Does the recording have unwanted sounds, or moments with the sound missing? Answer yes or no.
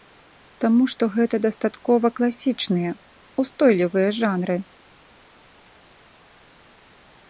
no